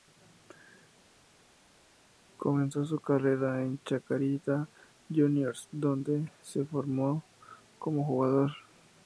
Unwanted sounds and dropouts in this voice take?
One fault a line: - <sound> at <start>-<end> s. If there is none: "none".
none